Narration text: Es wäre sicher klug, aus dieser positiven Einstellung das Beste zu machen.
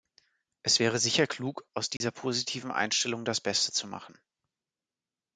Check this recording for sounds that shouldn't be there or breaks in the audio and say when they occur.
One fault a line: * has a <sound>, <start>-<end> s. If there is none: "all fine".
* has a dropout, 2.0-2.0 s